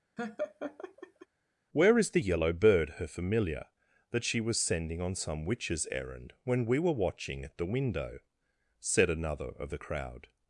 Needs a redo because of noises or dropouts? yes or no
yes